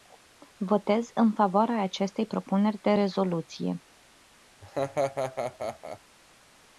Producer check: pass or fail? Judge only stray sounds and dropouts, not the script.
fail